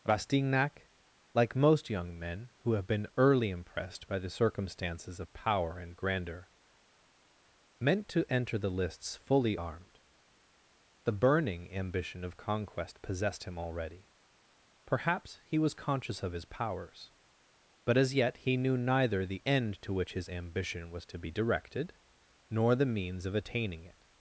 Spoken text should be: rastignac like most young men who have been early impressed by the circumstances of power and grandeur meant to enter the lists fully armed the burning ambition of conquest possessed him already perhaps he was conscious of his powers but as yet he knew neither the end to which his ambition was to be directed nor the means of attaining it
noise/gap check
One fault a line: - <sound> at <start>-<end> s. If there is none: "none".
none